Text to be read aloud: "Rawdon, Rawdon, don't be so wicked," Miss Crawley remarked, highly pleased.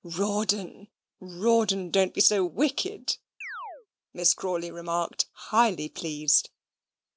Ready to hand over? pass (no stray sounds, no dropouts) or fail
fail